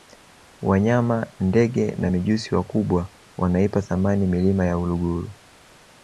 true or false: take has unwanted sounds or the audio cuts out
false